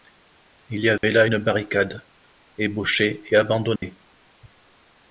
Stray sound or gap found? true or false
true